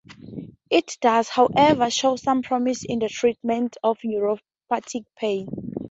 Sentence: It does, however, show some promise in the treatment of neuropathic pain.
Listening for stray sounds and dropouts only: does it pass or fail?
pass